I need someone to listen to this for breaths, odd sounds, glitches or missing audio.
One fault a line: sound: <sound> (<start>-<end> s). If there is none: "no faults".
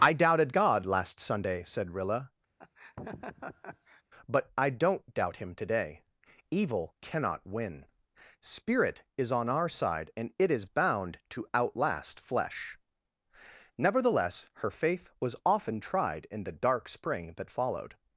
sound: laugh (2.6-4.0 s)